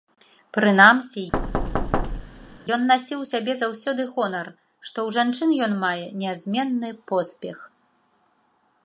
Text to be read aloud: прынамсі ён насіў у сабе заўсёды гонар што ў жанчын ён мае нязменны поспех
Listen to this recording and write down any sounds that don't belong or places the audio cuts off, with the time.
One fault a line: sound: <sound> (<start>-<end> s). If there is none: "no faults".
sound: thud (1.3-2.6 s)